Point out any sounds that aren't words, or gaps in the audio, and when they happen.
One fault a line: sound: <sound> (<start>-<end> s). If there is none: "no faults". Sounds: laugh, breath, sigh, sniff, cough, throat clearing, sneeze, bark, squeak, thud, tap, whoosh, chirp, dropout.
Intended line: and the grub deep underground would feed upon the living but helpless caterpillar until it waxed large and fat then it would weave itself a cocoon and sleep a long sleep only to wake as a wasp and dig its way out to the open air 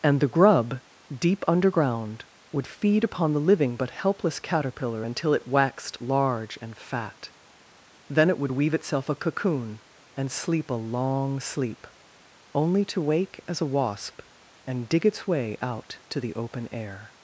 no faults